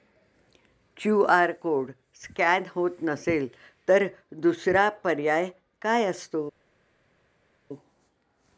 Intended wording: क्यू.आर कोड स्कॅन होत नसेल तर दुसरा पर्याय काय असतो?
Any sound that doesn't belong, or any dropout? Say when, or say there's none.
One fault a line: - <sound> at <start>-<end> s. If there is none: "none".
none